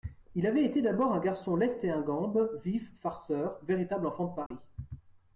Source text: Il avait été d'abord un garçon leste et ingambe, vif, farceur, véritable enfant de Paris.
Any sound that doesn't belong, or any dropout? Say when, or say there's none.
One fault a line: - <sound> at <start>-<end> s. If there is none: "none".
- dropout at 4.5-4.5 s